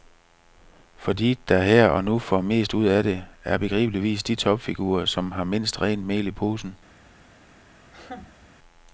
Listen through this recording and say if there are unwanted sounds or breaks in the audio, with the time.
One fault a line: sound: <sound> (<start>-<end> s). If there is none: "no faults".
sound: laugh (7.8-8.5 s)